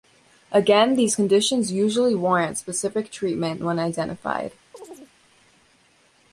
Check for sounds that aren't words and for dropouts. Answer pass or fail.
fail